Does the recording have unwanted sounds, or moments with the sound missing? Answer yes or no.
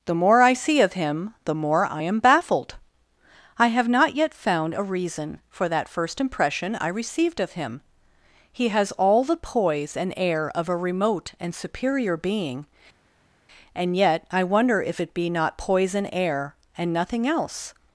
no